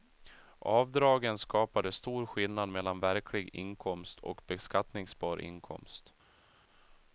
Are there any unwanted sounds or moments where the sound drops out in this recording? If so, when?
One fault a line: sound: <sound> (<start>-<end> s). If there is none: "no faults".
no faults